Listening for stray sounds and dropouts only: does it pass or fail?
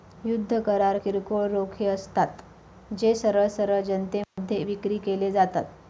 fail